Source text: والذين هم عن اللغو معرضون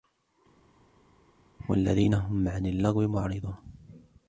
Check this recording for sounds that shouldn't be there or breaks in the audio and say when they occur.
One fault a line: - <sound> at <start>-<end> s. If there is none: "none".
none